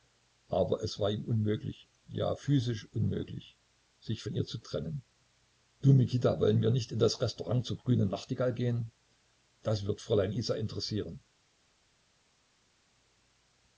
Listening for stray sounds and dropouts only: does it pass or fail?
pass